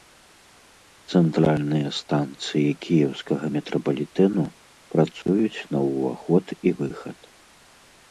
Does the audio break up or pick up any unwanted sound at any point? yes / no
yes